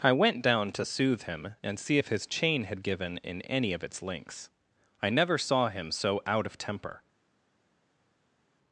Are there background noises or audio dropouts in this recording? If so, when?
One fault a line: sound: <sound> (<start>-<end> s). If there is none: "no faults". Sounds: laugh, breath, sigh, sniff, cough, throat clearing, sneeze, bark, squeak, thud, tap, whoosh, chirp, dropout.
no faults